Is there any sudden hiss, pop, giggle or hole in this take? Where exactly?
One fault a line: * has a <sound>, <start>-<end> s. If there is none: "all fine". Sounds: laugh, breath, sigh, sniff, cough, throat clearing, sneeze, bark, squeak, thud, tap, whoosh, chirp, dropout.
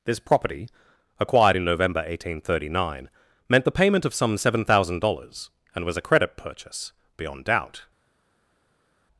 all fine